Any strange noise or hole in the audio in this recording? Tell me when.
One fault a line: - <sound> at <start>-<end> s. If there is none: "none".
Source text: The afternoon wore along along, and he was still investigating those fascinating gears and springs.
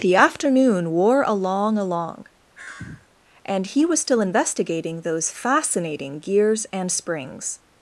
- sigh at 2.5-3.1 s